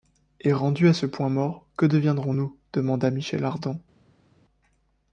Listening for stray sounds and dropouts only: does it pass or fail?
pass